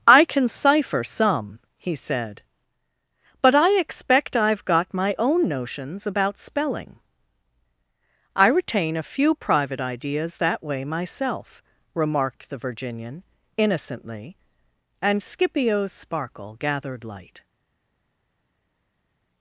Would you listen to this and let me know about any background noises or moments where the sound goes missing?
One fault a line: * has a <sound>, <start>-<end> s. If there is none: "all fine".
all fine